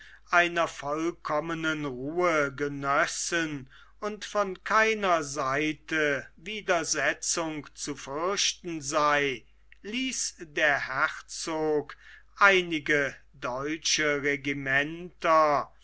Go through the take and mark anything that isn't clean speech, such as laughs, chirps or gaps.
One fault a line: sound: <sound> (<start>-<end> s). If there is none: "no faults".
no faults